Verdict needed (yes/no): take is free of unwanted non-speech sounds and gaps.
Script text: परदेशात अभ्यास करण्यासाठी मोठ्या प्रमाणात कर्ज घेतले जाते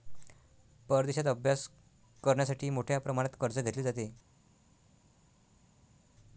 yes